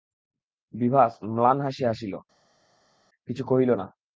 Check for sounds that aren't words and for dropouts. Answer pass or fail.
pass